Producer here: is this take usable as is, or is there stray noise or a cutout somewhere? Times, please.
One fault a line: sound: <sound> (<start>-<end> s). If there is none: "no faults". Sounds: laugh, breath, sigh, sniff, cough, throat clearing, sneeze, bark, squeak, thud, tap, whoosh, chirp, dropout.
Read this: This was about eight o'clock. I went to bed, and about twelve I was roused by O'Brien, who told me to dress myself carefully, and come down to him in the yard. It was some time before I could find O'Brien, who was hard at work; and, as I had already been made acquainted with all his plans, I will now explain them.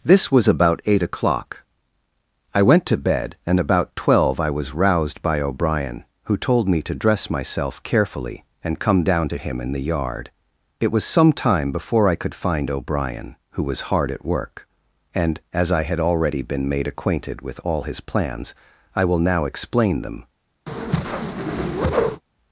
sound: whoosh (20.7-22.2 s)